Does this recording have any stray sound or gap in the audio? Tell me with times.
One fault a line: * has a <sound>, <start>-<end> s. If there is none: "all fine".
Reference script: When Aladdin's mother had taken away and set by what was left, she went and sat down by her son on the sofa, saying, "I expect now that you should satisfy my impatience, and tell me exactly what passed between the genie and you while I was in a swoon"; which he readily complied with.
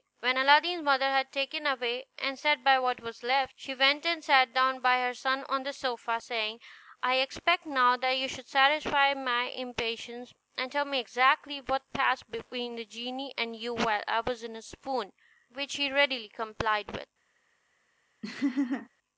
* has a laugh, 18.2-18.9 s